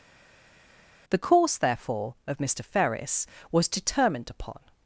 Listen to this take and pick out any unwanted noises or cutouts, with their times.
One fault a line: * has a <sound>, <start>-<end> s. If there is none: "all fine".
all fine